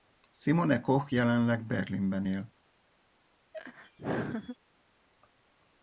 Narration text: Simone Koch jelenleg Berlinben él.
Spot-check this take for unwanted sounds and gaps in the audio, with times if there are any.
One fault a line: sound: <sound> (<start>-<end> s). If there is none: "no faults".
sound: laugh (3.5-4.6 s)